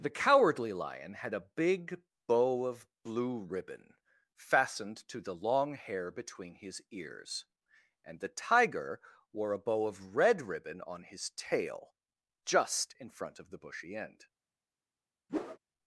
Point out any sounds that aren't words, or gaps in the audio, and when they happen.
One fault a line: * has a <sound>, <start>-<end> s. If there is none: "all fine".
* has a whoosh, 15.3-15.6 s